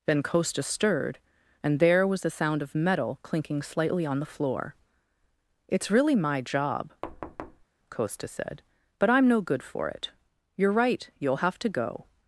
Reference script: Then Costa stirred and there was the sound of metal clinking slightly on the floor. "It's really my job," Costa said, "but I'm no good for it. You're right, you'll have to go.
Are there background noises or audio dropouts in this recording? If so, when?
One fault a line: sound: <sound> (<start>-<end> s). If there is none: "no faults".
sound: thud (7.0-7.7 s)